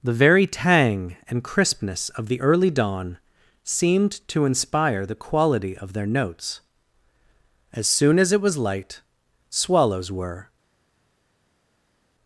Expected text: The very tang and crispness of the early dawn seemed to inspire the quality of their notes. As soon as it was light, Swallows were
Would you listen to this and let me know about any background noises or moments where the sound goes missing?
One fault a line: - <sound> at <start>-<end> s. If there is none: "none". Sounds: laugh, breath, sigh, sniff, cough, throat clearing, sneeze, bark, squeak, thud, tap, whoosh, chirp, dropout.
none